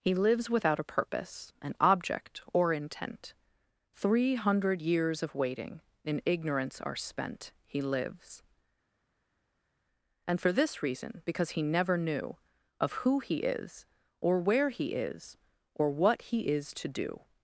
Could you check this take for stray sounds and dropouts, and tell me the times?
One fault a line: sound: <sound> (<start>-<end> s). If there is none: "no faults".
no faults